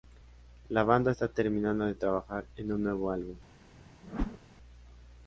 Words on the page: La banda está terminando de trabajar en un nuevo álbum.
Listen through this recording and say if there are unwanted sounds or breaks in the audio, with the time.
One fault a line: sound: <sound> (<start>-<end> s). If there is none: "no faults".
sound: whoosh (4.0-4.4 s)